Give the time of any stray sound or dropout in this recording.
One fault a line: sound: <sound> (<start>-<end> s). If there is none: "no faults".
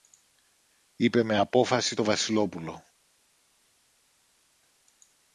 no faults